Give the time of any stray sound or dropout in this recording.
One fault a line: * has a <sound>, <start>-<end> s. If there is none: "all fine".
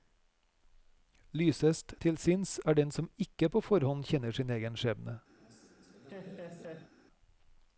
* has a laugh, 5.4-6.9 s